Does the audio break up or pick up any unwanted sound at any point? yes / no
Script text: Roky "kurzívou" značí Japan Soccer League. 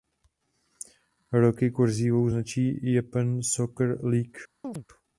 yes